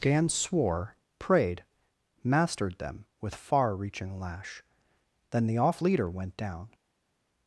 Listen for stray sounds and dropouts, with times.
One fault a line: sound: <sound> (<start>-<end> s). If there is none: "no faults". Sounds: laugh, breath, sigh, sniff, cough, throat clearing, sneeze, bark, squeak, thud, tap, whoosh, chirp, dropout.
no faults